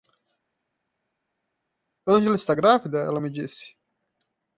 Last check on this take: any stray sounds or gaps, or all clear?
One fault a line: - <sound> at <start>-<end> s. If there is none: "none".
none